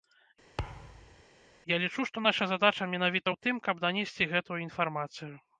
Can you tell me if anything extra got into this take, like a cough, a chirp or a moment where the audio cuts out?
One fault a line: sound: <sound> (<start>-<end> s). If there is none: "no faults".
sound: thud (0.6-1.2 s)